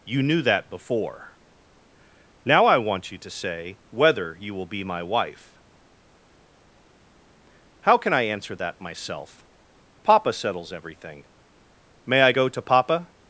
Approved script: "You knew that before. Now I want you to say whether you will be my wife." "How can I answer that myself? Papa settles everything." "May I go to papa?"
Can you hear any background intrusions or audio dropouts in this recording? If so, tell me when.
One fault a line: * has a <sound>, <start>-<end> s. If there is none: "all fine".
all fine